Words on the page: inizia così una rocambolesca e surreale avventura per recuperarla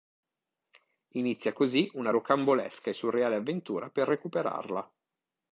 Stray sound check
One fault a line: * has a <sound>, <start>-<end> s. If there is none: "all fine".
all fine